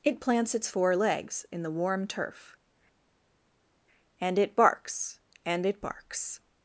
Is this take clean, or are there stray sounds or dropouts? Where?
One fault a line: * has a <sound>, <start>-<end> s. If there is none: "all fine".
all fine